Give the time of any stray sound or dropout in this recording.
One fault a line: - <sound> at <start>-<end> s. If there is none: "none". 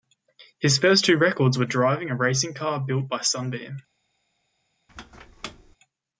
- squeak at 4.9-5.8 s